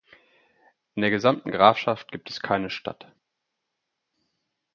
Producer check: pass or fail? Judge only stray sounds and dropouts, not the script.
pass